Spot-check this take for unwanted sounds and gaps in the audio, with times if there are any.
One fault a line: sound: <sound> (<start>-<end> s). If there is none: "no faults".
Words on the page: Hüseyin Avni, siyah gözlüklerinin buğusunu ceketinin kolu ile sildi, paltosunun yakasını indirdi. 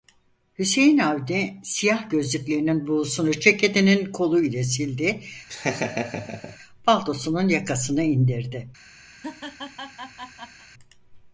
sound: laugh (5.5-6.6 s)
sound: laugh (9.1-10.7 s)